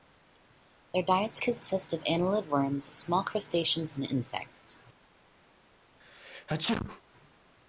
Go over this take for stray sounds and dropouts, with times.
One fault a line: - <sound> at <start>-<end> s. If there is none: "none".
- sneeze at 6.0-7.0 s